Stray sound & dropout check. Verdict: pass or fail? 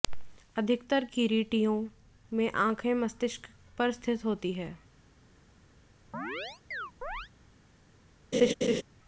fail